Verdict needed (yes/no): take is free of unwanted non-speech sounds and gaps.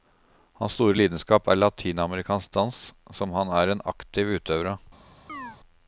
no